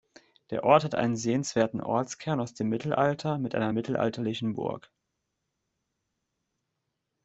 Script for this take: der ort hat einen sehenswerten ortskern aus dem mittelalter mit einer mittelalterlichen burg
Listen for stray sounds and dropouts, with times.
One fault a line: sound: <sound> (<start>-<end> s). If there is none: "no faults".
no faults